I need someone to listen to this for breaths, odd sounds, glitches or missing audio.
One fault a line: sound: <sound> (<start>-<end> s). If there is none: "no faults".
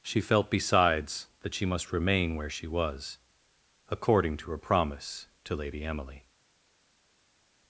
no faults